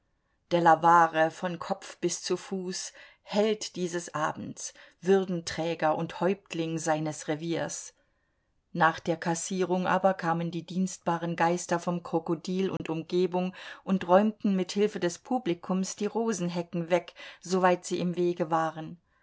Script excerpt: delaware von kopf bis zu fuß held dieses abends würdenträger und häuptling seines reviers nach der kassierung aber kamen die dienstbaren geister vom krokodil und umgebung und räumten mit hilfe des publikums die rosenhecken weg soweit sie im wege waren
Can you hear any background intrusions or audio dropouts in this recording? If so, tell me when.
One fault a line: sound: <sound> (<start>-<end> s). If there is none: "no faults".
sound: dropout (12.8-12.8 s)